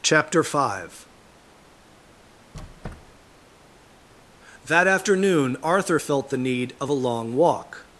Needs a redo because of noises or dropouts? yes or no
yes